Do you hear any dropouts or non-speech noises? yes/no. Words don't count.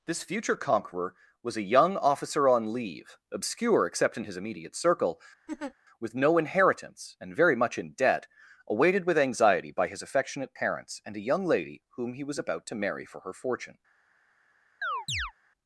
yes